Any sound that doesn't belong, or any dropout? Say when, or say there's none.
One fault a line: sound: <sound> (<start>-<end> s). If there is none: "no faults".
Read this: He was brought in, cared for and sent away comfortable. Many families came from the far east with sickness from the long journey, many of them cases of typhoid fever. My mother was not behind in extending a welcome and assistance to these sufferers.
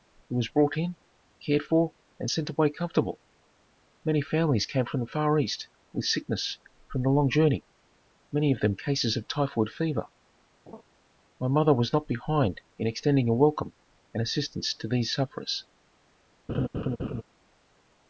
sound: laugh (10.7-10.8 s)
sound: laugh (16.5-17.2 s)